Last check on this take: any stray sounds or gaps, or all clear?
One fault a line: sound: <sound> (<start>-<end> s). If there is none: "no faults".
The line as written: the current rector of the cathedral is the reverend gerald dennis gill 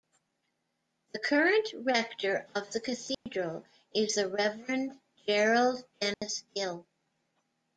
sound: dropout (3.1-3.3 s)
sound: dropout (6.1-6.2 s)